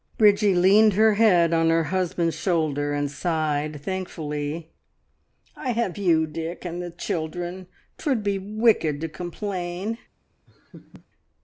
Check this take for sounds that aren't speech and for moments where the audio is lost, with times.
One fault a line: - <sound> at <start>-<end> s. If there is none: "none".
- laugh at 10.5-11.1 s